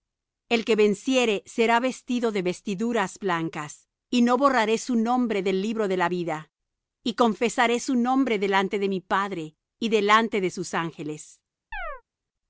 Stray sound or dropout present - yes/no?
yes